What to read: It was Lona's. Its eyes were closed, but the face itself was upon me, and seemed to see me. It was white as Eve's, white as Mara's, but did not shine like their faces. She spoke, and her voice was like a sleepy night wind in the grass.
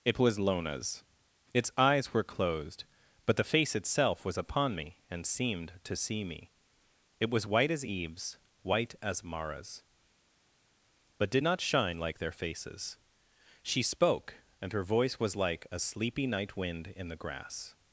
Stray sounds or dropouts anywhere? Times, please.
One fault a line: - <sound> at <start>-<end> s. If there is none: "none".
none